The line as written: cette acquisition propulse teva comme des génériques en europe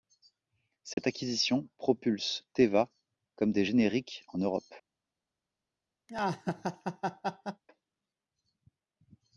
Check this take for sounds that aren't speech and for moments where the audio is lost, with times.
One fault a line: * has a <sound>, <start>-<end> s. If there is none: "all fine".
* has a dropout, 0.9-1.0 s
* has a laugh, 6.1-7.6 s